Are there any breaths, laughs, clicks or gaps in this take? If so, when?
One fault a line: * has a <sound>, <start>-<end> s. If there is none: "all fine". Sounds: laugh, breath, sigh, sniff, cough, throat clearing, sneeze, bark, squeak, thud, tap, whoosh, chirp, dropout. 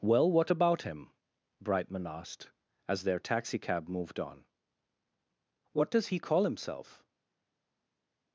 all fine